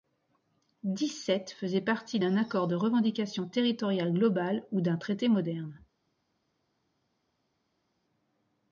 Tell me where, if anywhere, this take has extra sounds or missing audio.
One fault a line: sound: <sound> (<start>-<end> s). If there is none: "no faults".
no faults